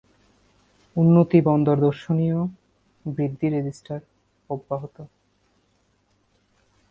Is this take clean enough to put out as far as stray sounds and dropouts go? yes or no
yes